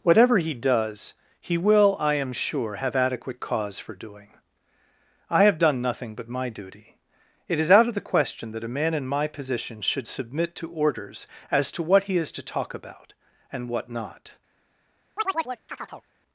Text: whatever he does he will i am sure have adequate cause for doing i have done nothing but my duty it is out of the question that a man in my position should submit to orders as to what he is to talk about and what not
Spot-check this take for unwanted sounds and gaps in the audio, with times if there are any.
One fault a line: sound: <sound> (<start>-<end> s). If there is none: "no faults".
sound: chirp (15.2-16.0 s)